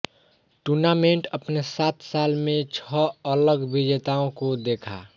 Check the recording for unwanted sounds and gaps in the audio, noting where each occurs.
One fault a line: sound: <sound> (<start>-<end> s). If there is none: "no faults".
no faults